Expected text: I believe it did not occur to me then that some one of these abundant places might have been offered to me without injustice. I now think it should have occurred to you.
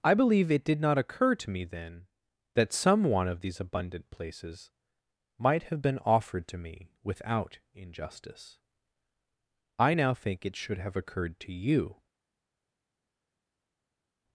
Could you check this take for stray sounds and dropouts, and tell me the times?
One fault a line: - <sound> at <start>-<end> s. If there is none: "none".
none